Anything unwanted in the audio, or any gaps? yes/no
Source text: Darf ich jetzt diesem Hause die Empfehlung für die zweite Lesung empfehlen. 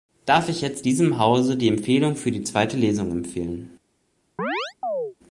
yes